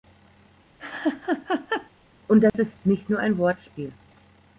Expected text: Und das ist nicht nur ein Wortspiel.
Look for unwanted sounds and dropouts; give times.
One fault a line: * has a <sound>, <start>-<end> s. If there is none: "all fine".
* has a laugh, 0.8-1.9 s
* has a dropout, 2.5-2.5 s